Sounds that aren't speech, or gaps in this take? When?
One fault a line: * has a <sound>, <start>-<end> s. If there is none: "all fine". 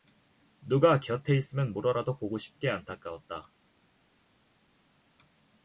all fine